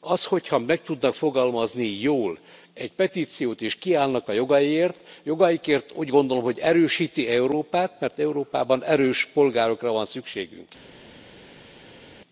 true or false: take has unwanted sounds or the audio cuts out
false